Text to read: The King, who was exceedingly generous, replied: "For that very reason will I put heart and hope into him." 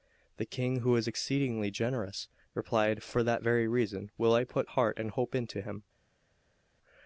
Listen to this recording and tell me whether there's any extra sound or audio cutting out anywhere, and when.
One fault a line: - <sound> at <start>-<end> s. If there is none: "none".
none